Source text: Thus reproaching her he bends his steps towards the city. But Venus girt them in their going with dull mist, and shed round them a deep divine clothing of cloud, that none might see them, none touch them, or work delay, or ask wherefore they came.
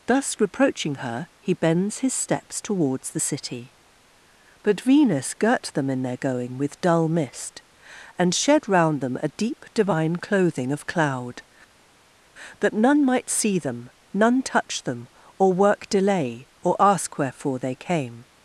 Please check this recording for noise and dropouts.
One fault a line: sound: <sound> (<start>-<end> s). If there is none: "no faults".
no faults